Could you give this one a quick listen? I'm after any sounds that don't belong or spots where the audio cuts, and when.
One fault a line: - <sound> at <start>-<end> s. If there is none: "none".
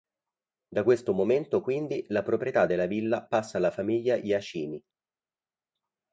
none